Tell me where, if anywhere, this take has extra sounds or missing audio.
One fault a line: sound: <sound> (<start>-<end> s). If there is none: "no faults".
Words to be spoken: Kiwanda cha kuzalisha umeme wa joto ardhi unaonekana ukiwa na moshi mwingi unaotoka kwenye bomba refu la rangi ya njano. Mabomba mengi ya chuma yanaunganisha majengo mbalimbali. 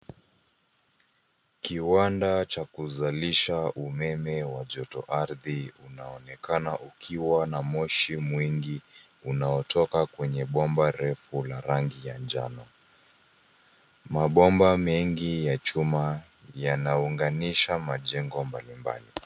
no faults